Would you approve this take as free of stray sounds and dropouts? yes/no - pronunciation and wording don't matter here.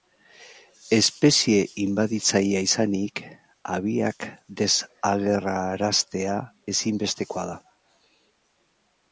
yes